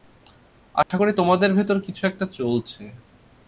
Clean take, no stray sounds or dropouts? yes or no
no